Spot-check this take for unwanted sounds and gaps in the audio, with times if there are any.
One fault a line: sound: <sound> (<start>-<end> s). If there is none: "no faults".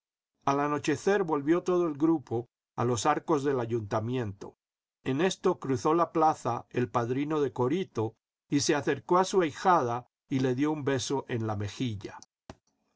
sound: thud (12.5-12.6 s)